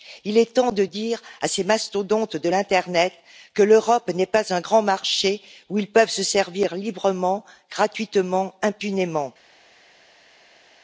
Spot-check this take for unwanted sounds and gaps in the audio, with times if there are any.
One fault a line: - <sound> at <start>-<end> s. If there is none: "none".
none